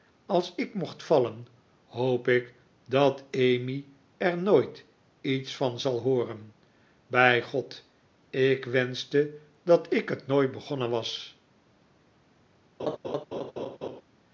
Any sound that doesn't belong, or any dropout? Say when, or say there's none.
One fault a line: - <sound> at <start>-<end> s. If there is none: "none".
- laugh at 12.8-14.0 s